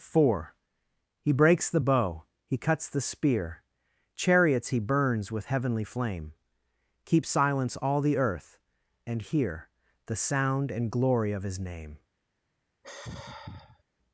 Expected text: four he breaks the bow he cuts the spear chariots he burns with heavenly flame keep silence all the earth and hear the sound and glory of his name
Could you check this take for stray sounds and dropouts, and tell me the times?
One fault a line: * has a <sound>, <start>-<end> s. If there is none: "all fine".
* has a sigh, 12.8-13.8 s